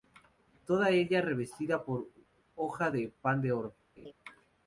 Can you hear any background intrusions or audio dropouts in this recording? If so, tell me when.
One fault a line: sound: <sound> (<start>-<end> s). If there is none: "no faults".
sound: laugh (4.0-4.1 s)